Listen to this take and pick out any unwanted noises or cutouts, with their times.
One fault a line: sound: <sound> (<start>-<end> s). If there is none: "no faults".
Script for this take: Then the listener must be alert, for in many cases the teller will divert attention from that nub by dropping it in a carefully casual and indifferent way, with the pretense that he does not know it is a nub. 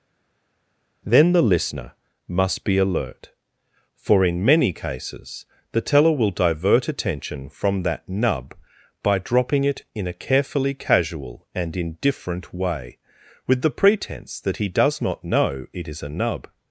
no faults